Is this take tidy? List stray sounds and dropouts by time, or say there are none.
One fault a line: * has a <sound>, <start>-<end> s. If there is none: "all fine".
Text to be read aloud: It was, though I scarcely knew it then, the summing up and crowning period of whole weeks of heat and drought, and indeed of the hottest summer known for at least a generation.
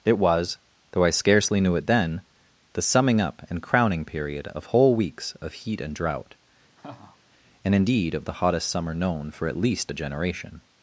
* has a laugh, 6.8-7.2 s